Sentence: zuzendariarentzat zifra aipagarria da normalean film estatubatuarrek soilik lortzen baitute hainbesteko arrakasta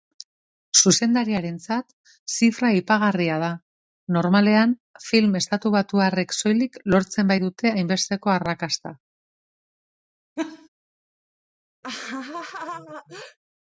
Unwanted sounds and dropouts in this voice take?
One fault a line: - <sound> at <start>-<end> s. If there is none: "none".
- laugh at 10.4-10.7 s
- laugh at 11.8-13.4 s